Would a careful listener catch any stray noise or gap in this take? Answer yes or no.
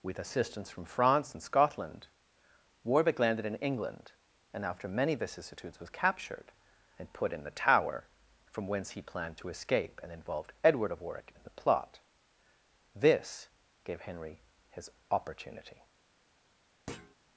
yes